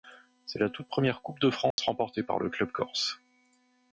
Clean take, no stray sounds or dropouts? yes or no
no